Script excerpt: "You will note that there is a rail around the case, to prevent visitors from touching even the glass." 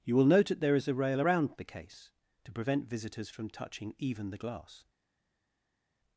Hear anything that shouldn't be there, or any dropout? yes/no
no